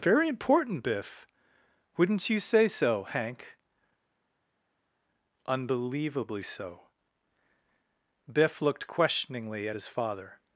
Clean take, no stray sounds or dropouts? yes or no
yes